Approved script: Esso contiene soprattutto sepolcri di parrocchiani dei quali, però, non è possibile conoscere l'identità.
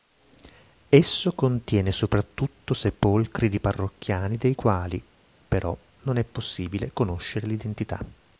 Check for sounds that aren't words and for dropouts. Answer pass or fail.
pass